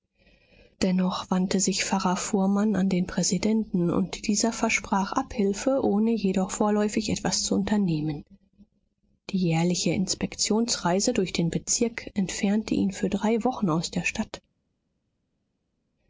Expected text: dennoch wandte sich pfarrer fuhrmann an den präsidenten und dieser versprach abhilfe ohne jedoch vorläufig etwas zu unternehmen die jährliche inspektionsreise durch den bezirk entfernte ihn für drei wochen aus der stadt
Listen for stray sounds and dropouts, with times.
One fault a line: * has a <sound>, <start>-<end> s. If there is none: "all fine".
all fine